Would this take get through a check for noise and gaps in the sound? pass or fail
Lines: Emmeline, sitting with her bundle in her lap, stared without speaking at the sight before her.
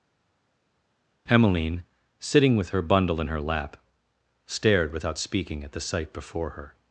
pass